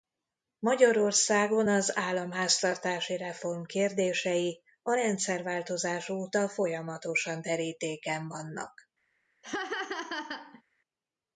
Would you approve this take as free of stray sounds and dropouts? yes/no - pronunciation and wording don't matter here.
no